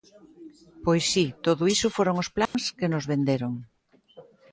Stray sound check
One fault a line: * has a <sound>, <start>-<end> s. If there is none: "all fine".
* has a dropout, 2.5-2.5 s